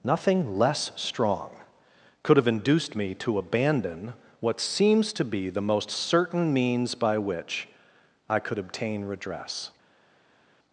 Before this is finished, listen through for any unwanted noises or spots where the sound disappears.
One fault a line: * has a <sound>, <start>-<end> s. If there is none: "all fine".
all fine